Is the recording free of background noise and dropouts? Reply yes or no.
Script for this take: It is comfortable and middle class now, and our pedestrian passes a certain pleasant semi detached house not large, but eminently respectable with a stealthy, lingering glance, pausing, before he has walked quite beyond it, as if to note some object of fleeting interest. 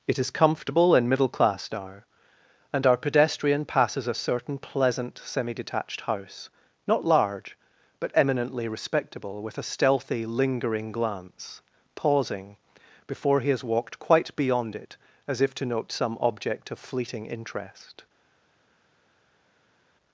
yes